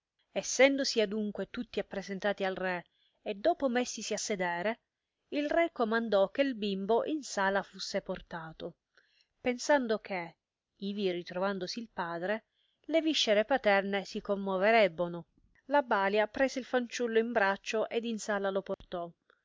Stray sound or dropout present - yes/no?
yes